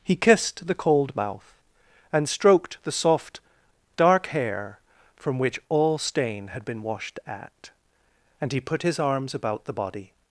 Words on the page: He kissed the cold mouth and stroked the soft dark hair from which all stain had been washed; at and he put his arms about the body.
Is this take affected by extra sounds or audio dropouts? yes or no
no